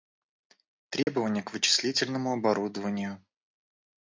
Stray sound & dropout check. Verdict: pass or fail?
fail